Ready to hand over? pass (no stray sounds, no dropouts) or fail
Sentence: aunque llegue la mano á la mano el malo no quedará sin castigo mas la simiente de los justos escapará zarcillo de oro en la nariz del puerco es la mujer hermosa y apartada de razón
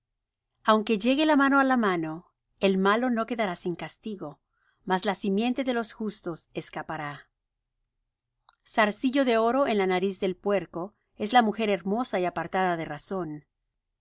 pass